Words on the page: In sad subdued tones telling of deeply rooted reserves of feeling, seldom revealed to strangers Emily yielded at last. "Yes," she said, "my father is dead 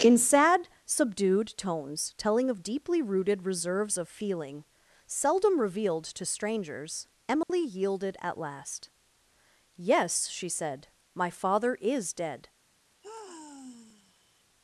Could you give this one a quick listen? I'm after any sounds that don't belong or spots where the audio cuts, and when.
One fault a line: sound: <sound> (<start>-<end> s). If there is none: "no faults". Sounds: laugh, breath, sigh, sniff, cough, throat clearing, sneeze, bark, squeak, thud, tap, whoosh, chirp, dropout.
sound: dropout (7.4-7.5 s)
sound: sigh (13.0-14.4 s)